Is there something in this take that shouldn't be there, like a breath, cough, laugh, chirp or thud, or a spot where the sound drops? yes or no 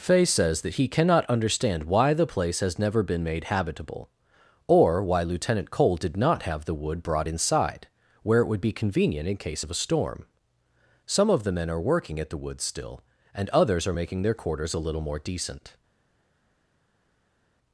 no